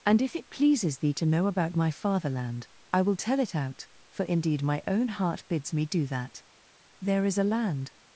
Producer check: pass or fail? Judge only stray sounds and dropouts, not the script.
pass